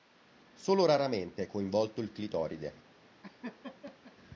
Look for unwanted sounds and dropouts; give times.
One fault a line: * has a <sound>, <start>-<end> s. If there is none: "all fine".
* has a laugh, 3.2-4.1 s